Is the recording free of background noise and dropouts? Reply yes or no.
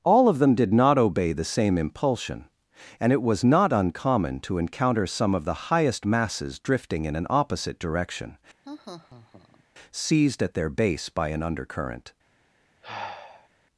no